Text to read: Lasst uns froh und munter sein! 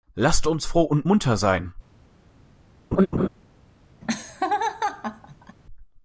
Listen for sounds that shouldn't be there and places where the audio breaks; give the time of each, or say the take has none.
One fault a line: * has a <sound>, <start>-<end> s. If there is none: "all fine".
* has a laugh, 2.9-3.3 s
* has a laugh, 4.0-5.6 s